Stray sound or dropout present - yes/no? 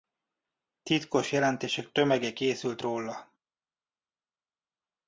no